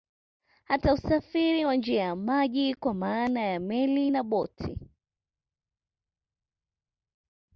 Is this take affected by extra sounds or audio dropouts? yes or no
no